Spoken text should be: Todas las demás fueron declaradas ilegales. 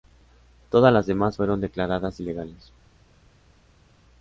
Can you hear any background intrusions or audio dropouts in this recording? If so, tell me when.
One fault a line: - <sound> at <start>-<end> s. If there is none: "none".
none